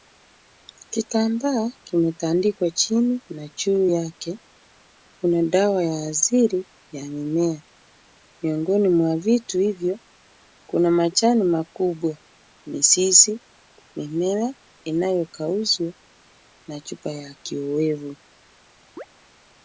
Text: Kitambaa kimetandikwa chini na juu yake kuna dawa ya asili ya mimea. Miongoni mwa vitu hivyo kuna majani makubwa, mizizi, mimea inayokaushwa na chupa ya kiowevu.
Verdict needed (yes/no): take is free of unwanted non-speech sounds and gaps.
no